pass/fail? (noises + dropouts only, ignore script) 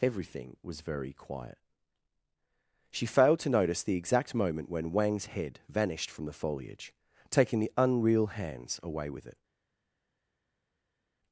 pass